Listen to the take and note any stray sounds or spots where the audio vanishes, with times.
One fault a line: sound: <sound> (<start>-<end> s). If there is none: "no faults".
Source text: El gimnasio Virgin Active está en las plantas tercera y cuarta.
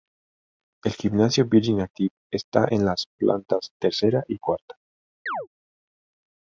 sound: chirp (5.3-5.5 s)